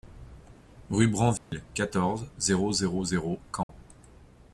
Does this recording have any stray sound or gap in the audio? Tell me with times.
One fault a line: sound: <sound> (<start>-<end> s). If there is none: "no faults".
sound: dropout (1.4-1.5 s)
sound: dropout (3.6-3.7 s)